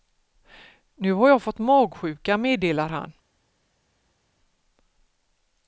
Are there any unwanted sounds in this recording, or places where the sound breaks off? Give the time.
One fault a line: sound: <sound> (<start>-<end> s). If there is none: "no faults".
no faults